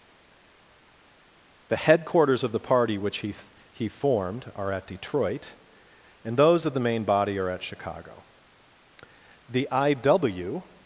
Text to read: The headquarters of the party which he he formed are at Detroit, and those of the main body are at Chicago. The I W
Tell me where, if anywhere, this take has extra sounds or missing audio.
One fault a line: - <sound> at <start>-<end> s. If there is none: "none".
none